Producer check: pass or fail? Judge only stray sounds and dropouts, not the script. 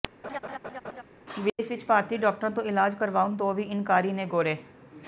fail